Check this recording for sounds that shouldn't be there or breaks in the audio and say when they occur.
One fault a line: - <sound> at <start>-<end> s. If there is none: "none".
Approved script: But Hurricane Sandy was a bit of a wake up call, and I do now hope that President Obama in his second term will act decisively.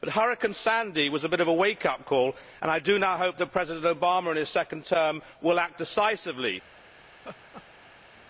- laugh at 7.1-8.2 s